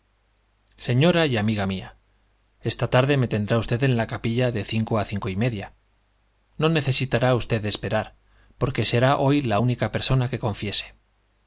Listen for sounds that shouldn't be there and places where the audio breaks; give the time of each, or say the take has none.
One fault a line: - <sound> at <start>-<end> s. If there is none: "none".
none